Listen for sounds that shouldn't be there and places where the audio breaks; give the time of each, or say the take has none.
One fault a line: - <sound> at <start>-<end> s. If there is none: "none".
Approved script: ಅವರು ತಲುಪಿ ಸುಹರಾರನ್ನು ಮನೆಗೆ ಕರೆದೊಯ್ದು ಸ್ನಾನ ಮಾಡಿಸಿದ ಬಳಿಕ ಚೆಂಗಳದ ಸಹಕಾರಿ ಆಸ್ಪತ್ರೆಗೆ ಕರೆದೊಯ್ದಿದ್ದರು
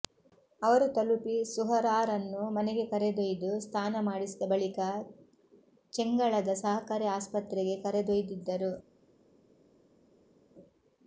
none